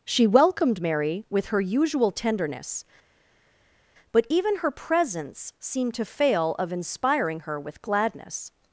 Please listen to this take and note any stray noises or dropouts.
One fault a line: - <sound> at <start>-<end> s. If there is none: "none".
none